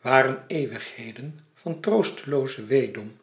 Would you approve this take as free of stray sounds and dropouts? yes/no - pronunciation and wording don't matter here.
yes